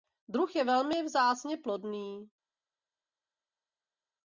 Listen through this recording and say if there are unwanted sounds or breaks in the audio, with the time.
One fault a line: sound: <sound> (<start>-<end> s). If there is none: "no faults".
no faults